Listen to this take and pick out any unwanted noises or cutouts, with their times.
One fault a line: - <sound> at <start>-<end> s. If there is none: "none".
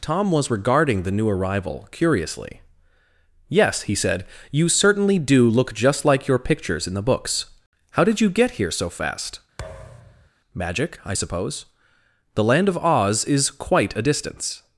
- thud at 9.6-10.3 s